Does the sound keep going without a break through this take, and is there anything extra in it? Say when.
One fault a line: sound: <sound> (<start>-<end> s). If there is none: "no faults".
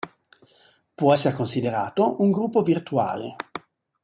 no faults